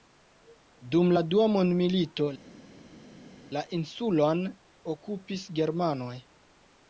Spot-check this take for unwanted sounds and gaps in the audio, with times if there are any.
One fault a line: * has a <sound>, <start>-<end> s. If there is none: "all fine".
all fine